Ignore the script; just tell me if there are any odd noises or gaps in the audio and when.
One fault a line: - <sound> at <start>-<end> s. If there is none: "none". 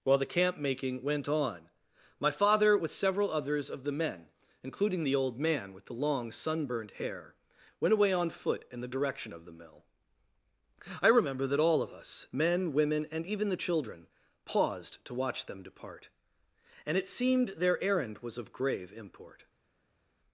none